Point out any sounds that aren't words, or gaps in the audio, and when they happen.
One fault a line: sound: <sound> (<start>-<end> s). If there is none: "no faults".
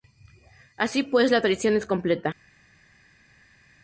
no faults